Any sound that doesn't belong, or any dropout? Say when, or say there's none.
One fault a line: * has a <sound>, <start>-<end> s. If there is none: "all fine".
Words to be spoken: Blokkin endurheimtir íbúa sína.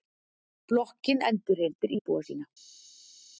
all fine